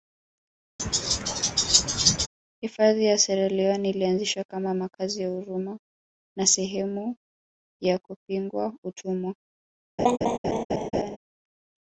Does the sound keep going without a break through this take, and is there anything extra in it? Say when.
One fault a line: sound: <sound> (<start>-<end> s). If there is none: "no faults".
sound: laugh (0.8-2.3 s)
sound: laugh (10.0-11.2 s)